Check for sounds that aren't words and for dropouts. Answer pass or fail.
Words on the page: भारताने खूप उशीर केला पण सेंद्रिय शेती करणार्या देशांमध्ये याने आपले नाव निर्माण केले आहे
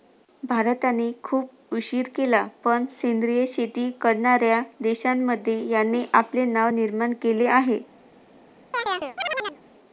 fail